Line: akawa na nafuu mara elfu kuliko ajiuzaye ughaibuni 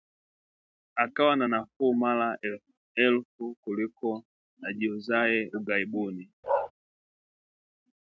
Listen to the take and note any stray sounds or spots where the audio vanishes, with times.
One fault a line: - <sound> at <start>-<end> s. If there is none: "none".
- bark at 6.4-6.7 s